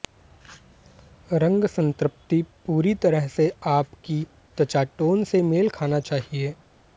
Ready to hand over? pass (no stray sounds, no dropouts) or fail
pass